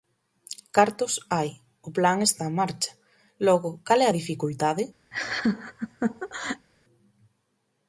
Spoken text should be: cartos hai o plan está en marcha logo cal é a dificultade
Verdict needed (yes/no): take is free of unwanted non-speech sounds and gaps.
no